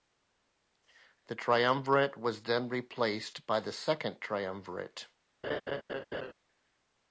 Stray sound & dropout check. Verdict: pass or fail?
fail